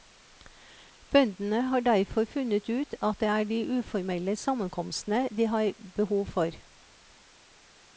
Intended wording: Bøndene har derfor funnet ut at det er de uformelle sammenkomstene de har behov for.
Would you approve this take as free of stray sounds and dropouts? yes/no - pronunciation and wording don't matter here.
yes